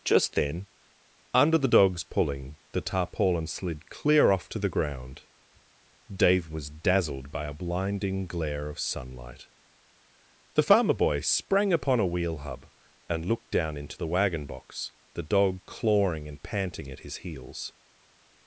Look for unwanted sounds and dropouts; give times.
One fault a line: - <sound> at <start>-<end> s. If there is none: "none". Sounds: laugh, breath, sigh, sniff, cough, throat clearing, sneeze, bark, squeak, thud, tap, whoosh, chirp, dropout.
none